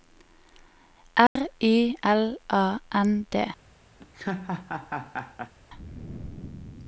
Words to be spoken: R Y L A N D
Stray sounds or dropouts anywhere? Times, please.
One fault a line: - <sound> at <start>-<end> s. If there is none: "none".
- dropout at 1.3-1.4 s
- laugh at 4.0-5.5 s